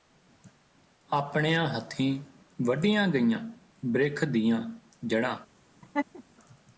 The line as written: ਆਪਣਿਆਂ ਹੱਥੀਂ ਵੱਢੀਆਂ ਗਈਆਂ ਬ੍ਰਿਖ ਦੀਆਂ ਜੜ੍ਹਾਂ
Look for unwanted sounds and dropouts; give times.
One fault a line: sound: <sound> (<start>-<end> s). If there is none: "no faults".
sound: laugh (5.8-6.2 s)